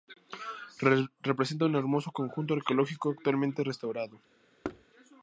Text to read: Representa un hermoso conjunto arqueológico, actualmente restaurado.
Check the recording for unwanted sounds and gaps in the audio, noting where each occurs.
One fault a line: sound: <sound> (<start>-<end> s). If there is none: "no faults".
sound: thud (4.6-4.9 s)